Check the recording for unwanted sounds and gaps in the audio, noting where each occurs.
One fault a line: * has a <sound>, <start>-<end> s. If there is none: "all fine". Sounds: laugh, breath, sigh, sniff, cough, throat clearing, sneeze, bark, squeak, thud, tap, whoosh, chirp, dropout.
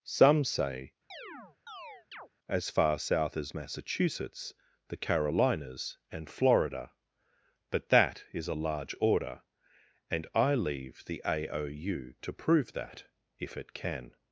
* has a chirp, 1.1-2.3 s